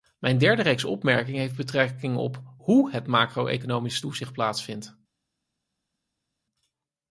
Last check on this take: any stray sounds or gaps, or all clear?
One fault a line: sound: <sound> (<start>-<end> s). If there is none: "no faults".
no faults